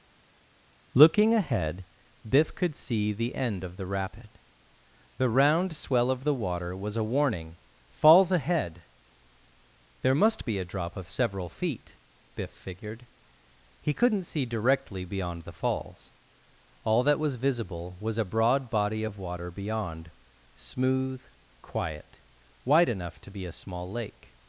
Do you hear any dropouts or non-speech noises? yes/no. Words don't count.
no